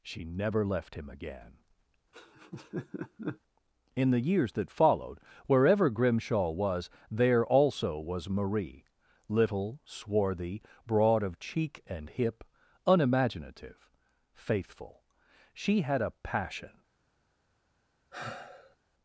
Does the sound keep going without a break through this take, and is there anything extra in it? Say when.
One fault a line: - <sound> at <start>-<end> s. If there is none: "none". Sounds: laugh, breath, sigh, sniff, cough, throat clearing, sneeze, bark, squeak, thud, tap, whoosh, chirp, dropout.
- laugh at 2.1-3.4 s
- sigh at 18.1-18.8 s